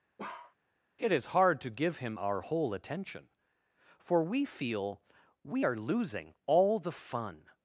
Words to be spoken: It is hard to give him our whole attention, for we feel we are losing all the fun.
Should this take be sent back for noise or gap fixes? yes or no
yes